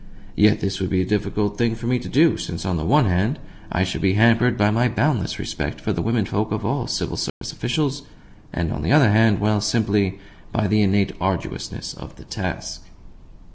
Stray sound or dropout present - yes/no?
yes